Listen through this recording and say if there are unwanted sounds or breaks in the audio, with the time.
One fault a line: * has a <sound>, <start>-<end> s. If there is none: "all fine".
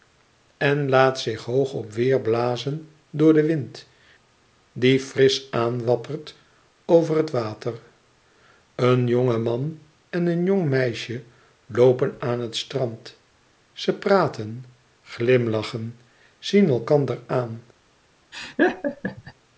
* has a laugh, 18.3-19.3 s